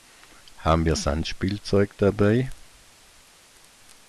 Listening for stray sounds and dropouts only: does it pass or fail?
pass